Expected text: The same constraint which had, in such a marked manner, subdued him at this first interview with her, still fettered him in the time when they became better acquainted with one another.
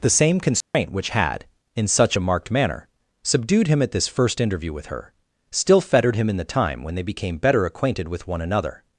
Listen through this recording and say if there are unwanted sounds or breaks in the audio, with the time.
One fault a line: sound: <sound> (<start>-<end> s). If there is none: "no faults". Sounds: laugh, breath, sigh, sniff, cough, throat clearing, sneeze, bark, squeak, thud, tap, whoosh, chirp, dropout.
sound: dropout (0.6-0.7 s)